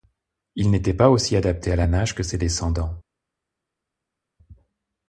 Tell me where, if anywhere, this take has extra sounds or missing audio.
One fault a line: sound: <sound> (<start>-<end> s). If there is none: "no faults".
no faults